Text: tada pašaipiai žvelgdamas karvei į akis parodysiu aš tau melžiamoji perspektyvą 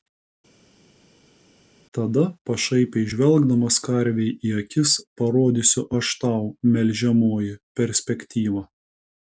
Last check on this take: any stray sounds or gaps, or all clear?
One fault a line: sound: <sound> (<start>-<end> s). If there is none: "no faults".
no faults